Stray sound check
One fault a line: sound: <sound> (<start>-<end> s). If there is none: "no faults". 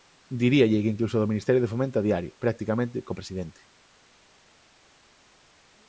no faults